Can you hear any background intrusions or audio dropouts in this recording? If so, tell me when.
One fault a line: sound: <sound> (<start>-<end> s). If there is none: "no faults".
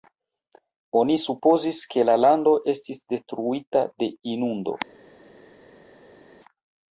no faults